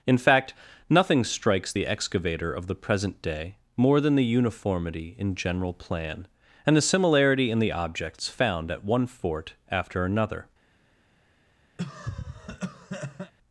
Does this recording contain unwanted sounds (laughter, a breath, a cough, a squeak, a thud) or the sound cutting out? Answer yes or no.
yes